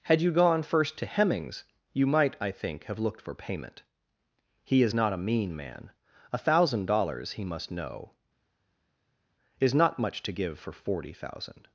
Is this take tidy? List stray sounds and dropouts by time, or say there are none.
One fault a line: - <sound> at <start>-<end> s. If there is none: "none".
none